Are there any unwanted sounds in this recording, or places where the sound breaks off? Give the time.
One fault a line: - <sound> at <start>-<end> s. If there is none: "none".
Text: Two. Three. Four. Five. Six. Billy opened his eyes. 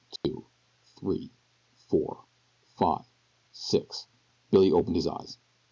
- dropout at 0.2-0.2 s